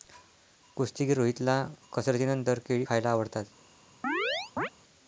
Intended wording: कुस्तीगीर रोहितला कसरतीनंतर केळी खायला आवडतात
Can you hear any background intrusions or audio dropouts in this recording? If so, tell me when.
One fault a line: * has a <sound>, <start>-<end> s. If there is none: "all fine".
* has a chirp, 4.0-4.7 s